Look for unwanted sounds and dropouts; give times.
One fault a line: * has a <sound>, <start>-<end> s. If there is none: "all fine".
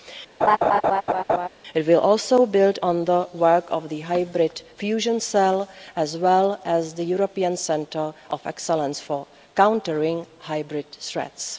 * has a laugh, 0.4-1.5 s